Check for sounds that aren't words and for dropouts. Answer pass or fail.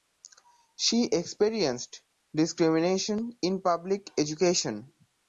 pass